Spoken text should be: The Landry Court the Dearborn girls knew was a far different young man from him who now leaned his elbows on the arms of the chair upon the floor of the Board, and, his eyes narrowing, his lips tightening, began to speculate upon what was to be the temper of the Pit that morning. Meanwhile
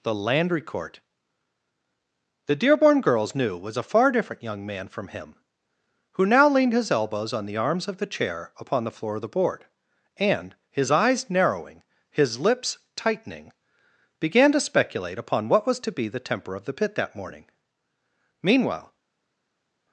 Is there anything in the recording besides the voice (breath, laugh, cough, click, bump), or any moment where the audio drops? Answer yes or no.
no